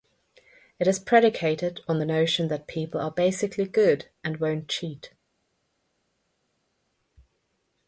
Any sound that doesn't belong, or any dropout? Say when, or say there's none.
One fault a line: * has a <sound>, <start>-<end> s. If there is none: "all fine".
all fine